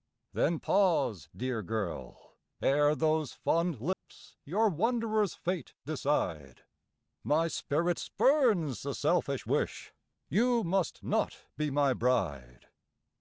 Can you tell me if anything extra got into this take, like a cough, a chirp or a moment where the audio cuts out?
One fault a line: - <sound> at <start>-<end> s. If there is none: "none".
- dropout at 3.9-4.0 s